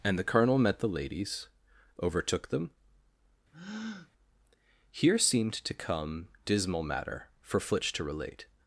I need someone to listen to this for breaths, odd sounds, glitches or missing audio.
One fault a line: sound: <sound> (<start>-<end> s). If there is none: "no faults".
sound: breath (3.5-4.1 s)